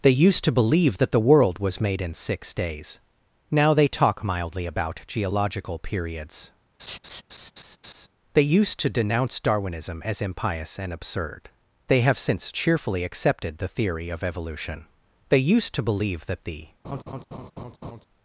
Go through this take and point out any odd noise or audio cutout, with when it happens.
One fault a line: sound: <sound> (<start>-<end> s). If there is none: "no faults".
sound: laugh (6.8-8.1 s)
sound: laugh (16.8-18.0 s)